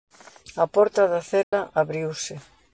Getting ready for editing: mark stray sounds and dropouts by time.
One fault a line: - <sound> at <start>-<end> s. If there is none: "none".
- dropout at 1.4-1.5 s